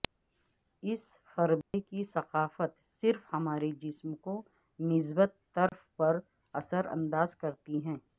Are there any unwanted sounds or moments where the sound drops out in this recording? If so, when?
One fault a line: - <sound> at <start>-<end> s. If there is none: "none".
- dropout at 1.6-1.7 s
- dropout at 5.7-5.7 s